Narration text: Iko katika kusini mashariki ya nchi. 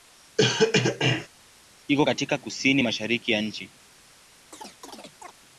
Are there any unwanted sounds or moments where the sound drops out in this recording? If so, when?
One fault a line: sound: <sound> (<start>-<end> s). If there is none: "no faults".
sound: cough (0.4-1.3 s)
sound: chirp (4.5-5.3 s)